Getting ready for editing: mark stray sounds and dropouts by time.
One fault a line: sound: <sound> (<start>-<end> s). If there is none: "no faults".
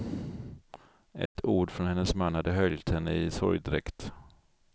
sound: dropout (1.3-1.4 s)